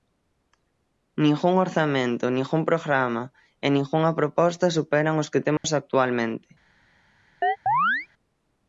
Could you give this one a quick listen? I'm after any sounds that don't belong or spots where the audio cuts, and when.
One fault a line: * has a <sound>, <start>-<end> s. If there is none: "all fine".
* has a dropout, 5.6-5.6 s
* has a chirp, 7.4-8.1 s